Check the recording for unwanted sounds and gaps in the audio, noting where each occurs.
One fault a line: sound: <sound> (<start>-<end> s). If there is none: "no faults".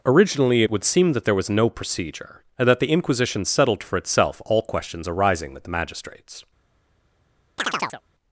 sound: chirp (7.6-8.0 s)